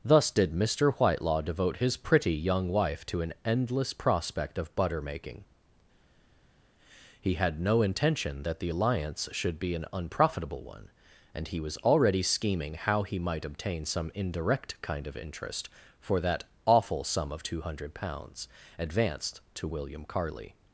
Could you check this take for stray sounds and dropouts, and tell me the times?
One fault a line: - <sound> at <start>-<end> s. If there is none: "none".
none